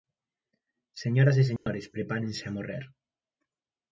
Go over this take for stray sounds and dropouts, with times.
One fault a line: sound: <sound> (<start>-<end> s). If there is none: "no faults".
sound: dropout (1.6-1.7 s)